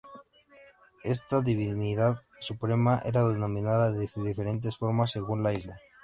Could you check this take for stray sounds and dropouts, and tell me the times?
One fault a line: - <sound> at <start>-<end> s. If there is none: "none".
none